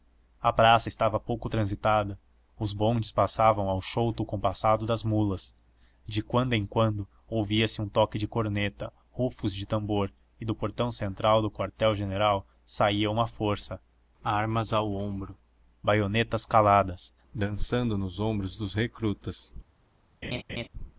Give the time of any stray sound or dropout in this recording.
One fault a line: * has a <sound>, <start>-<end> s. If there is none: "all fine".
* has a laugh, 20.2-20.7 s